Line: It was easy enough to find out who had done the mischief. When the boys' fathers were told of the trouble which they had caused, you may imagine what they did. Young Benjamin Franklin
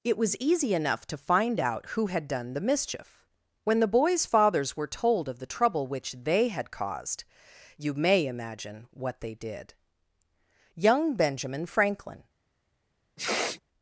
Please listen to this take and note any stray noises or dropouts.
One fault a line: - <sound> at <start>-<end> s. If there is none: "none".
- sniff at 13.2-13.6 s